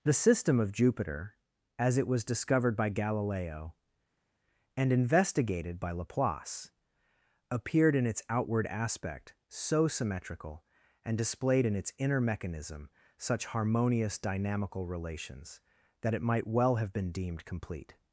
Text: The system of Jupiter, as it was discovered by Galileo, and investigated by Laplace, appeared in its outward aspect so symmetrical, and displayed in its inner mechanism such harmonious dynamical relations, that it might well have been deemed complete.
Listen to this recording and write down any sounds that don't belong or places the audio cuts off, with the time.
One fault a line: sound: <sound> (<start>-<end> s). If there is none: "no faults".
no faults